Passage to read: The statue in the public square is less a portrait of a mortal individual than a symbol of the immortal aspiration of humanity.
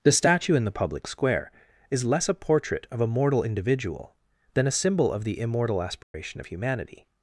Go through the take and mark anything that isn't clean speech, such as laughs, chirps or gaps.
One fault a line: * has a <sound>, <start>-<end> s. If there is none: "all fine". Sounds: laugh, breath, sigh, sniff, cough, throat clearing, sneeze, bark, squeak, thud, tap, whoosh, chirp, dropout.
* has a dropout, 6.0-6.1 s